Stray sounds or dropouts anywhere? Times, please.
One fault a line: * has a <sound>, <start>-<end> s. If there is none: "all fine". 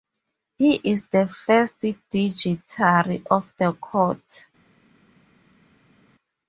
all fine